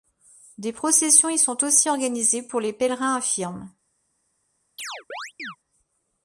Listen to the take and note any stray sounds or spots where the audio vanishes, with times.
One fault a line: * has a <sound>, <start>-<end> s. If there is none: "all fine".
* has a chirp, 4.8-5.6 s